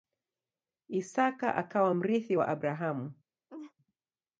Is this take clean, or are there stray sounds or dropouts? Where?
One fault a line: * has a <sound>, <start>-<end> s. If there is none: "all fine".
* has a laugh, 3.5-3.7 s